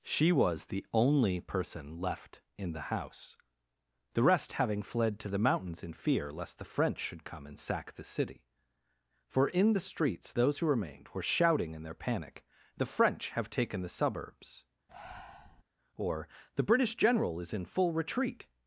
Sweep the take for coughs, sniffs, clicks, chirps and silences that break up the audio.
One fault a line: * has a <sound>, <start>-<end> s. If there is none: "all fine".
* has a breath, 14.9-15.6 s